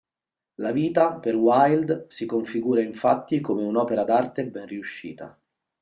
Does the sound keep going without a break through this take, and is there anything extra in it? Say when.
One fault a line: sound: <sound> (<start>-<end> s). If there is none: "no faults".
no faults